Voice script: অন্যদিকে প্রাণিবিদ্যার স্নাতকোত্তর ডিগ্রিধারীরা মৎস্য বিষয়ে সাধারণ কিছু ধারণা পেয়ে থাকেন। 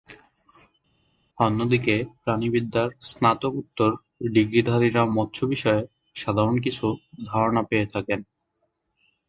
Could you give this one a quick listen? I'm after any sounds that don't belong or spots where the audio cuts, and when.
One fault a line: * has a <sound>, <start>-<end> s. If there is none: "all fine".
all fine